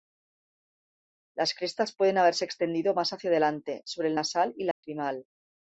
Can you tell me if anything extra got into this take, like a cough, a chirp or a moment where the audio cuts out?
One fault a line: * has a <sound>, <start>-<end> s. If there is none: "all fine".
* has a dropout, 4.7-4.8 s